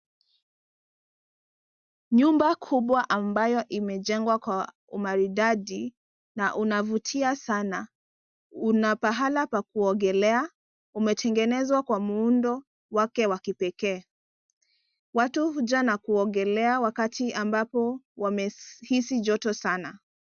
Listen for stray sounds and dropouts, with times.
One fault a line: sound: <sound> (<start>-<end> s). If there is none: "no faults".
no faults